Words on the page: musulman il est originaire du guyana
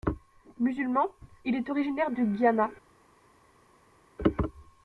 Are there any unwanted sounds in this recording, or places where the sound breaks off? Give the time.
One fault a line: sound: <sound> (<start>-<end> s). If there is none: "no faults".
no faults